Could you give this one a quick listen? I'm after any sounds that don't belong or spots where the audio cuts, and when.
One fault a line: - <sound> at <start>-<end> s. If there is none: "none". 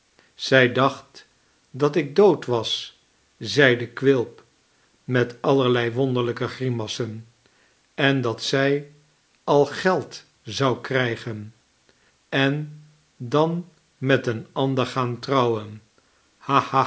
none